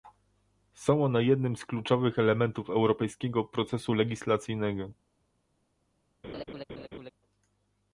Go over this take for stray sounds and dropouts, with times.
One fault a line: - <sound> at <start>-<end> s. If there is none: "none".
- laugh at 6.2-7.1 s